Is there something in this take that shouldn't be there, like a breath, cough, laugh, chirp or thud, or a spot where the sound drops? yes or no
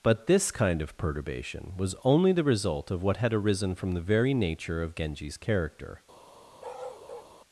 yes